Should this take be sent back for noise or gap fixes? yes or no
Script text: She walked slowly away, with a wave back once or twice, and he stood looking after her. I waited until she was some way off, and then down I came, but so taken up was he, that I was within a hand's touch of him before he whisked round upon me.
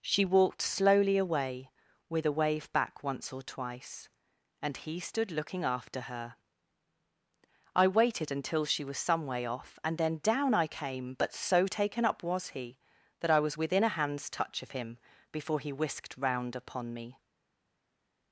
no